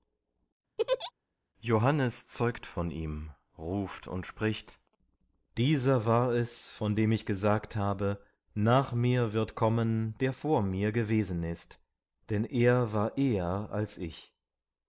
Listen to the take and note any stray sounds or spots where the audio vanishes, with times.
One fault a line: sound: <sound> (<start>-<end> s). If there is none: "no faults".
sound: laugh (0.8-1.1 s)